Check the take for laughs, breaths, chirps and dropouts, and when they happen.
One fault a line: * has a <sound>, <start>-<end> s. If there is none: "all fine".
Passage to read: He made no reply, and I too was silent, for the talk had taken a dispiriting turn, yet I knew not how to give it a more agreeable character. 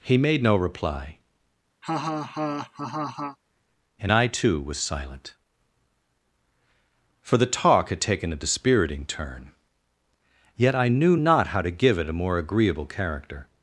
* has a laugh, 1.8-3.4 s